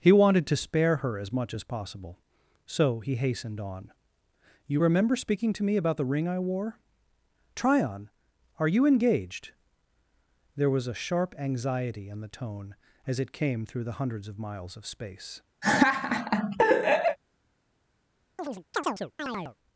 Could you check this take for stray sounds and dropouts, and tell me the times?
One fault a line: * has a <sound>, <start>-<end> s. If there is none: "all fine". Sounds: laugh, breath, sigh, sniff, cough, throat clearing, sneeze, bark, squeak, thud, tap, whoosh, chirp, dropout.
* has a laugh, 15.6-17.2 s
* has a chirp, 18.4-19.6 s